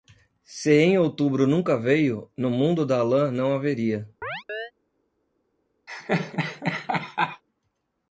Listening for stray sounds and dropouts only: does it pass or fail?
fail